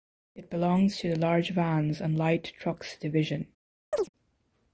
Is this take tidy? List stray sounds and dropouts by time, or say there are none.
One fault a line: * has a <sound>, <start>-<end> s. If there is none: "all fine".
* has a chirp, 3.9-4.1 s